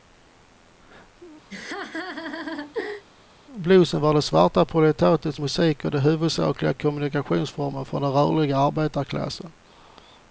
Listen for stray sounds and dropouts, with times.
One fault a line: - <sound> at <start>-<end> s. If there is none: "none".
- laugh at 1.5-3.0 s